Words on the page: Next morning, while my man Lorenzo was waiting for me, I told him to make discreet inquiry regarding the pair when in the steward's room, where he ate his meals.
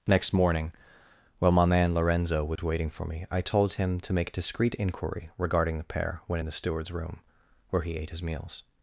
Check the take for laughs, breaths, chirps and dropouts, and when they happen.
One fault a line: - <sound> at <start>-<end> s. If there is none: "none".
- dropout at 2.6-2.6 s